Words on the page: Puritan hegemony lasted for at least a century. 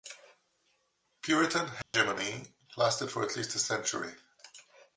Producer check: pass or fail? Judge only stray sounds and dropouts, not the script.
fail